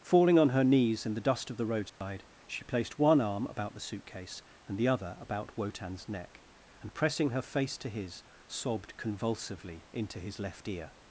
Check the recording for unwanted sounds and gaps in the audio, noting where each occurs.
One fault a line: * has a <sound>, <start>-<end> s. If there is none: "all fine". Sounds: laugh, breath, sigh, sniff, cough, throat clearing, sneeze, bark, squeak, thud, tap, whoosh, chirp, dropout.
* has a dropout, 1.9-2.0 s